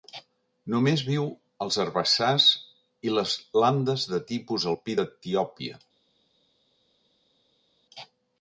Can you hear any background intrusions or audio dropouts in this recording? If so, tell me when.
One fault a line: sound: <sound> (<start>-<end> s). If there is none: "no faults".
no faults